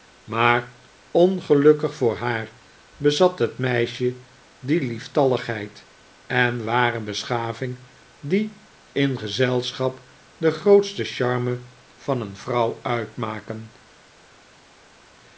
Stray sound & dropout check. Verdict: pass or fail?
pass